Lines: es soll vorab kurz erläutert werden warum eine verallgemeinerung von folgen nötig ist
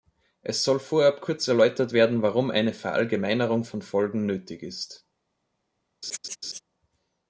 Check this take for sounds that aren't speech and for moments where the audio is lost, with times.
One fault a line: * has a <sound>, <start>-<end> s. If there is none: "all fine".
* has a laugh, 6.0-6.6 s